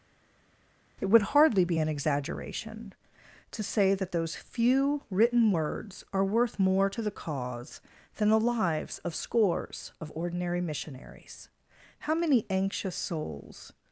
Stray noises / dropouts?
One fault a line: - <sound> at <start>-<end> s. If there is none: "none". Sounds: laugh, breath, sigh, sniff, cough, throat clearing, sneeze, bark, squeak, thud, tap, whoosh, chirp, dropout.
none